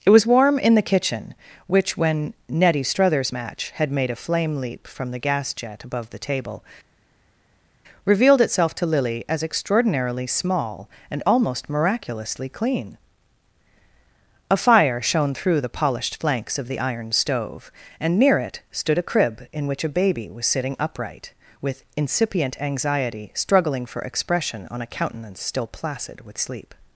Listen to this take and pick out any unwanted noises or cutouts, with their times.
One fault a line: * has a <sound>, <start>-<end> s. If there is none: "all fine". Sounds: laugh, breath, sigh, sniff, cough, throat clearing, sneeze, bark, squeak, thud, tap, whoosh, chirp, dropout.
all fine